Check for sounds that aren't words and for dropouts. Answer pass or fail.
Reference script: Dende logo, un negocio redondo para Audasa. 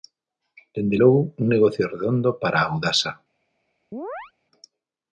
fail